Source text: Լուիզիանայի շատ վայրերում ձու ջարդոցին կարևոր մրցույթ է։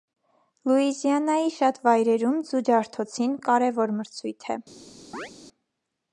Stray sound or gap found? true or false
true